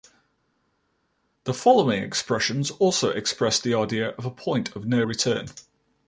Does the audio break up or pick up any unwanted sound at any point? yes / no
no